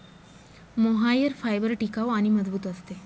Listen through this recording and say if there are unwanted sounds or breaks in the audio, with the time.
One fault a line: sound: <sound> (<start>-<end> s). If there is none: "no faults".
no faults